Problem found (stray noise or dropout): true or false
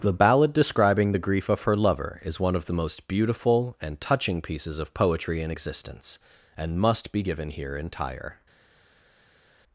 false